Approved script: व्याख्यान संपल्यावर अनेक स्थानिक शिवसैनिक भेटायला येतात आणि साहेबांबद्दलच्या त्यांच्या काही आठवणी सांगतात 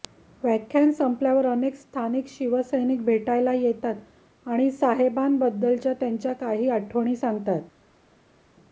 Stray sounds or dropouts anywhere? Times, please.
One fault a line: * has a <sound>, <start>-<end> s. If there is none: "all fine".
all fine